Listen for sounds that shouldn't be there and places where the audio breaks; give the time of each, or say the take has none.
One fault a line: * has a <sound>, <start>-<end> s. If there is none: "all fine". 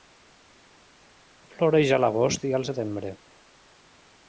all fine